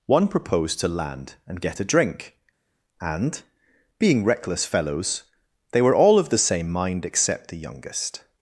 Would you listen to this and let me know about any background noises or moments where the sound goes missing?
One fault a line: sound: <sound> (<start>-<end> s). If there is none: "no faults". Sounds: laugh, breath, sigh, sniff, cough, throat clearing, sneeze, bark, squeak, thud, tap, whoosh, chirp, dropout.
no faults